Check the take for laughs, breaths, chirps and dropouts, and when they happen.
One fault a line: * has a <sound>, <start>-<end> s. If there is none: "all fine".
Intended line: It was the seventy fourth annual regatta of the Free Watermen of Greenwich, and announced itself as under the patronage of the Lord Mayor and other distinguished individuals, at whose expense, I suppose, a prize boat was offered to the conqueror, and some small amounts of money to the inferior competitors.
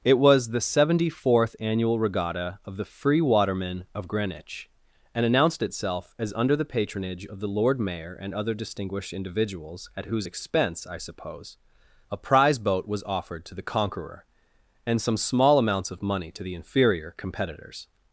all fine